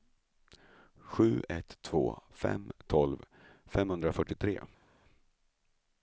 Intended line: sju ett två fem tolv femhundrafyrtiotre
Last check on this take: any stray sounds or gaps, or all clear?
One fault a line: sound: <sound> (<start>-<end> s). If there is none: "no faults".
no faults